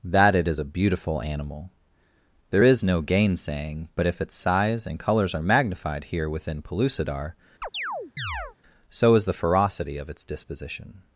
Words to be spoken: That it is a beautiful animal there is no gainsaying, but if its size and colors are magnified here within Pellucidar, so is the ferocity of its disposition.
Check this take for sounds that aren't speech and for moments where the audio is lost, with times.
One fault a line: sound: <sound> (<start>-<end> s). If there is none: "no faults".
sound: chirp (7.6-8.6 s)